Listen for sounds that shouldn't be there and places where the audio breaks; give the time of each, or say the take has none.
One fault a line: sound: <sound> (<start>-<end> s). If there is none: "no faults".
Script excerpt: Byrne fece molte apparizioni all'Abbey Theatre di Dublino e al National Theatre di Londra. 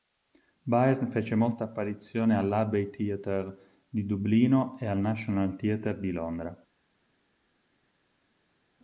no faults